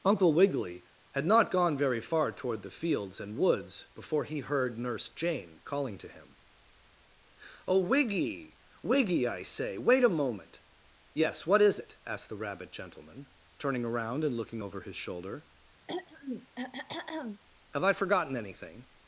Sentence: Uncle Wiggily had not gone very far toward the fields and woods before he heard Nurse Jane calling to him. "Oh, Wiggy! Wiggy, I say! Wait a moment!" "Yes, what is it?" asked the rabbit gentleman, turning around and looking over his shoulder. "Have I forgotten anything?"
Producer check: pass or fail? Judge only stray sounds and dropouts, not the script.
fail